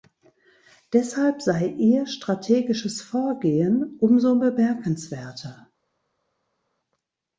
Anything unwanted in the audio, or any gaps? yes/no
no